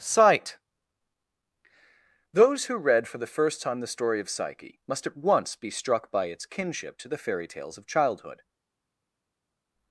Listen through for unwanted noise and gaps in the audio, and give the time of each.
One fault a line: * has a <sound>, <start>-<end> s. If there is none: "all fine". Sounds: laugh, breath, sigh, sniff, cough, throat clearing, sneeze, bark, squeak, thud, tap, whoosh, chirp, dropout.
all fine